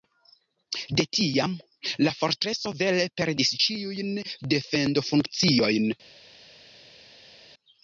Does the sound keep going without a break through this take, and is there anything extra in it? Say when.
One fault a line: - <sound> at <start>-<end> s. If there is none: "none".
none